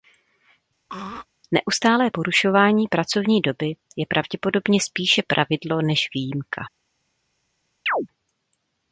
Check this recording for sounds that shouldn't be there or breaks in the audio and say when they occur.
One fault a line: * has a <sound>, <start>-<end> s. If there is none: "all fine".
* has a throat clearing, 0.9-1.3 s
* has a chirp, 7.9-8.1 s